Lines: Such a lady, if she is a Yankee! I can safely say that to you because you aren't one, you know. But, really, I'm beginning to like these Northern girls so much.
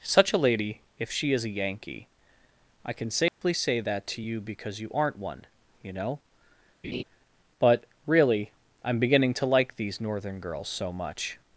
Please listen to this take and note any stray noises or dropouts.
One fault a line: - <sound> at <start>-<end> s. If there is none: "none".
- dropout at 3.3-3.4 s
- laugh at 6.8-7.0 s